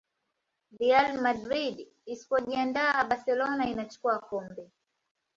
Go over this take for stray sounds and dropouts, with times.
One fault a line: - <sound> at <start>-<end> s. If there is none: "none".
none